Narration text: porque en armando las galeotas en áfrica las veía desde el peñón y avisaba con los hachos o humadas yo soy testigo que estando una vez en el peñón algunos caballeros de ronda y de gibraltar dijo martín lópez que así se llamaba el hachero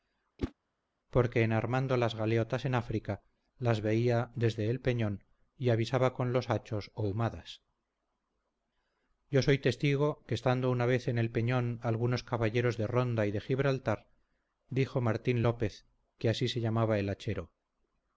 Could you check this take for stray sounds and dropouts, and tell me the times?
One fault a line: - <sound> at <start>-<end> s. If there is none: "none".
- whoosh at 0.4-0.5 s